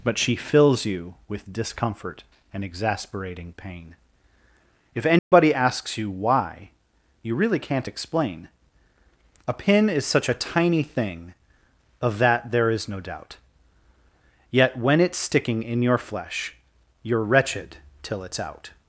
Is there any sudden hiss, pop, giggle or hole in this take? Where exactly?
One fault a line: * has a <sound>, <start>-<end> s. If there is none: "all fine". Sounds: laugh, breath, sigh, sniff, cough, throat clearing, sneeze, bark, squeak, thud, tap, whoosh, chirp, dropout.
* has a dropout, 5.2-5.3 s